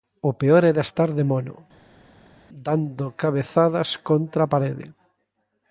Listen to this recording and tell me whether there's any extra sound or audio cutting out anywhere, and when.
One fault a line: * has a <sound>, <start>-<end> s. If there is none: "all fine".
all fine